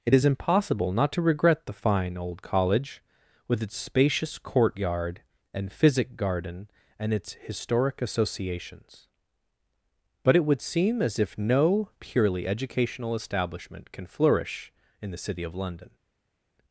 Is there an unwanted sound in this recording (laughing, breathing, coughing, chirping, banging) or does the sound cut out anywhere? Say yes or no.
no